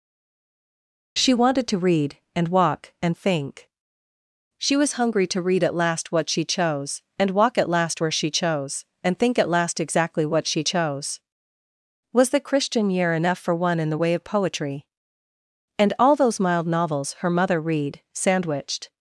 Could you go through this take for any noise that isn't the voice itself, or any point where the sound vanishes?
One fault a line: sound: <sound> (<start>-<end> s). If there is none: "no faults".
no faults